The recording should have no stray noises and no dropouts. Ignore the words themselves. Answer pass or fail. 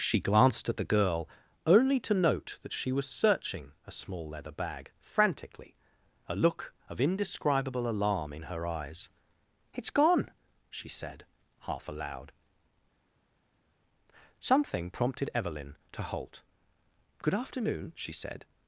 pass